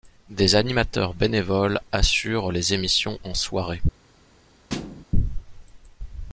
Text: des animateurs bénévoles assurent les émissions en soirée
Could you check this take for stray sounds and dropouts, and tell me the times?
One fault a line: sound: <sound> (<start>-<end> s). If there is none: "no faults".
sound: thud (4.7-5.0 s)